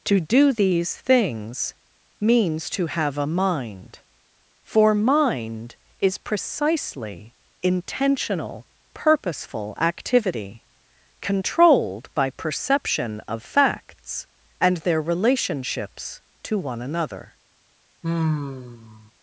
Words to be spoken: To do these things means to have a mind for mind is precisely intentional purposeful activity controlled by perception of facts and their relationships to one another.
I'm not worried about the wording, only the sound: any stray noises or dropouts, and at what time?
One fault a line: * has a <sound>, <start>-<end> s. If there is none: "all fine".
* has a sigh, 18.0-19.1 s